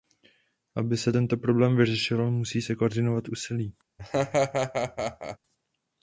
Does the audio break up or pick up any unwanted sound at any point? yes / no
yes